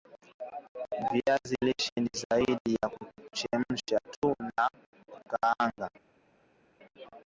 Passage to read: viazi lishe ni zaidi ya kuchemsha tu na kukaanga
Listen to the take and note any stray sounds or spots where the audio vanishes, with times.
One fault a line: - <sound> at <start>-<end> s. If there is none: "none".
none